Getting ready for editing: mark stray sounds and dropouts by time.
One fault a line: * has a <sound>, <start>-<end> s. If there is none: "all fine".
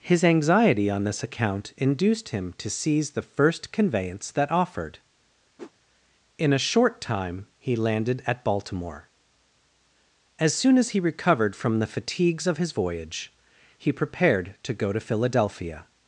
* has a whoosh, 5.6-5.7 s